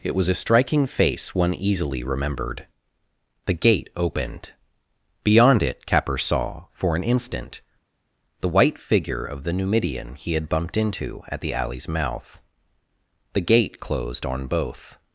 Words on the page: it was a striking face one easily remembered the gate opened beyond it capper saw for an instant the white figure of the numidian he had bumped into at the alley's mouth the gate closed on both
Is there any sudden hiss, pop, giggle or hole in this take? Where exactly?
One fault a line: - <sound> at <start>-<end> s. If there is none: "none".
none